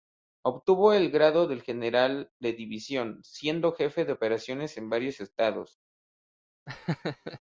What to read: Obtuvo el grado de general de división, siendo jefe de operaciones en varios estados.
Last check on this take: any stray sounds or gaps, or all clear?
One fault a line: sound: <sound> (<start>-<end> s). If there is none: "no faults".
sound: laugh (6.7-7.4 s)